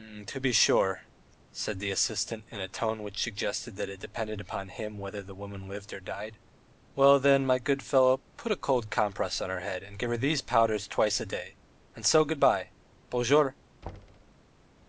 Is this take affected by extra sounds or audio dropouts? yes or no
yes